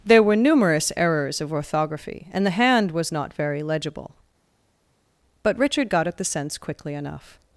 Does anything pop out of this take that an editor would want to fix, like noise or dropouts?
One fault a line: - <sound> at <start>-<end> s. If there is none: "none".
none